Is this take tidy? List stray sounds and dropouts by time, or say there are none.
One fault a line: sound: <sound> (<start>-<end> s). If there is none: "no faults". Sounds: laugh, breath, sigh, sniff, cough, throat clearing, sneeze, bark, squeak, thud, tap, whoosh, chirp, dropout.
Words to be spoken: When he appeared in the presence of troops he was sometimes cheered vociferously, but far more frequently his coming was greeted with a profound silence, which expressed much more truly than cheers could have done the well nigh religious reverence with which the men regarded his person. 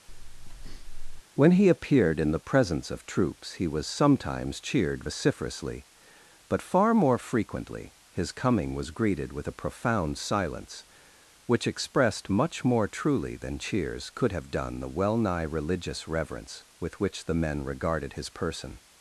sound: breath (0.1-1.2 s)